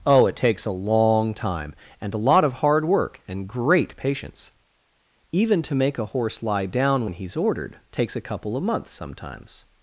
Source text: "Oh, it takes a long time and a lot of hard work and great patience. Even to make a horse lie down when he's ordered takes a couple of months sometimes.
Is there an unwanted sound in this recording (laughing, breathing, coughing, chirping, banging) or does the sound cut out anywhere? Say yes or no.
no